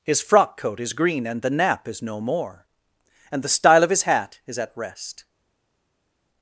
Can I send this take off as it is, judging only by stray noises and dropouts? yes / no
yes